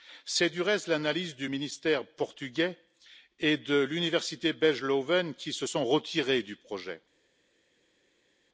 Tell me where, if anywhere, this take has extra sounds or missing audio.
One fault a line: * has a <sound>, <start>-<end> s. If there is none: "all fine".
all fine